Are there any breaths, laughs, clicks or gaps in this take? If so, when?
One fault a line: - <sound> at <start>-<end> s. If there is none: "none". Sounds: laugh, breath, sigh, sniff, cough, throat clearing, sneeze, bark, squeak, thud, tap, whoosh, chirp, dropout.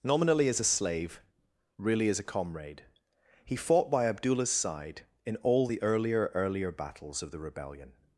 none